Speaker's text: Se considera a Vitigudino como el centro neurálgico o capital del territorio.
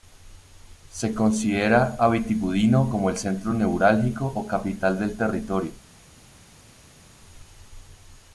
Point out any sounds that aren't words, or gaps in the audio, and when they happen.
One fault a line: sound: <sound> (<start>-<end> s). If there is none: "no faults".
no faults